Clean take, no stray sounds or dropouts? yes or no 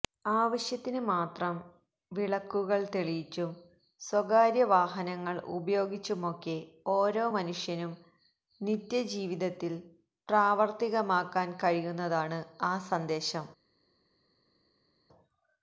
yes